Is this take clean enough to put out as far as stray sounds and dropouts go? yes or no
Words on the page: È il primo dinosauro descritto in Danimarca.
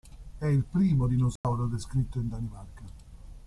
no